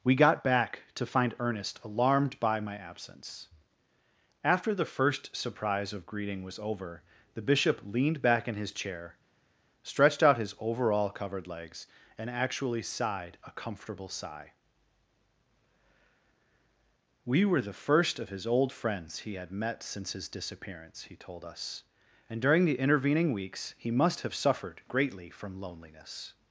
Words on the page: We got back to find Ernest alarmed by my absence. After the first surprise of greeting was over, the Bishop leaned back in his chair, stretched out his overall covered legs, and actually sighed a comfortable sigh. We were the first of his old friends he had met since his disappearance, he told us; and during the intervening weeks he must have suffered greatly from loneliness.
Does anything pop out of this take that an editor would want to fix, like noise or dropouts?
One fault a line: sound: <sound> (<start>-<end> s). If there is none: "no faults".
no faults